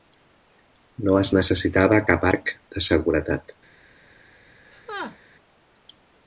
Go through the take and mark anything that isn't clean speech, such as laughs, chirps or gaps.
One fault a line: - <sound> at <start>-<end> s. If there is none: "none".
- laugh at 4.7-5.2 s